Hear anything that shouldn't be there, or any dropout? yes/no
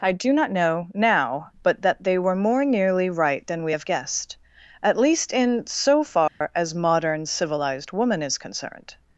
yes